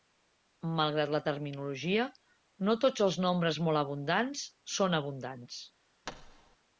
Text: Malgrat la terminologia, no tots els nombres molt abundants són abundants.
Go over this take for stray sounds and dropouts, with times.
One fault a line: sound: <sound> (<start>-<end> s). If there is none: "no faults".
sound: thud (6.1-6.6 s)